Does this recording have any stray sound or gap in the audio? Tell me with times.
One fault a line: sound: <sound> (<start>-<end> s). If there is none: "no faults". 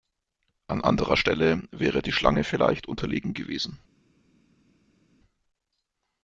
no faults